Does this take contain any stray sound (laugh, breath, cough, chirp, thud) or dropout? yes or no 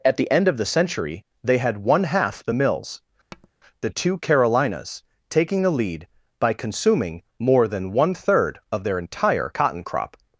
yes